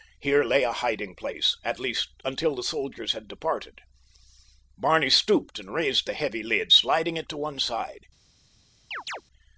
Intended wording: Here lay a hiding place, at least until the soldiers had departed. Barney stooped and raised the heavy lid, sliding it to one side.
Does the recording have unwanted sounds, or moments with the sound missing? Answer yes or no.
yes